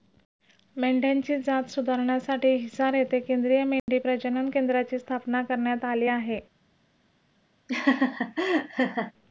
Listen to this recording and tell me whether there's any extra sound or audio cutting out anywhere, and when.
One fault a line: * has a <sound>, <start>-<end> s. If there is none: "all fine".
* has a dropout, 3.8-3.9 s
* has a laugh, 7.7-9.1 s